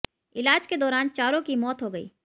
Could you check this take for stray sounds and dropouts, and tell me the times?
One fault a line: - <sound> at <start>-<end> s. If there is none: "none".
none